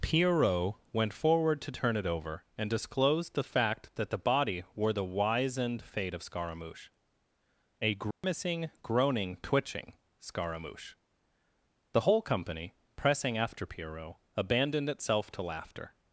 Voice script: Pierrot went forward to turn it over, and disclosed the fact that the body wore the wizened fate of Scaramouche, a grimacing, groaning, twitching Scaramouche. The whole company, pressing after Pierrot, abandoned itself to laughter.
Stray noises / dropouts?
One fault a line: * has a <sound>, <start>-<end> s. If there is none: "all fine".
* has a dropout, 8.1-8.2 s